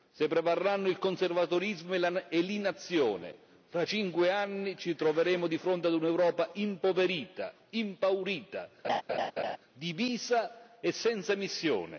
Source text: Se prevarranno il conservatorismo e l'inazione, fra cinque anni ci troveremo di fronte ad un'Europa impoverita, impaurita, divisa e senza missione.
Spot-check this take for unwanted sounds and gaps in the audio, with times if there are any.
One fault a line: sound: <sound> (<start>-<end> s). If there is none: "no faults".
sound: laugh (8.8-9.6 s)